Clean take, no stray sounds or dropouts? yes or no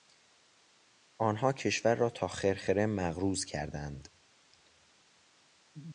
yes